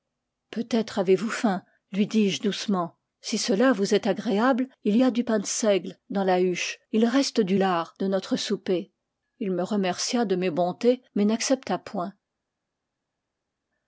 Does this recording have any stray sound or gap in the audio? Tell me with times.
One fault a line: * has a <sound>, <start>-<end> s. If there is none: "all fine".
all fine